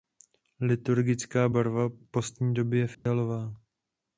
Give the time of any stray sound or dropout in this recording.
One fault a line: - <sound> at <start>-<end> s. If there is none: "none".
- dropout at 2.9-3.1 s